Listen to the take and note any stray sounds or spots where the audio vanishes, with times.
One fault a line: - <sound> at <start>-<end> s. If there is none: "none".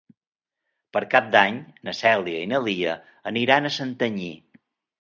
none